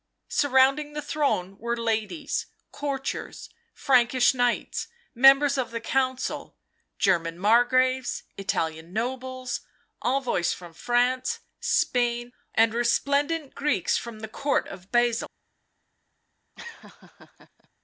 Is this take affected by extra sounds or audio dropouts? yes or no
yes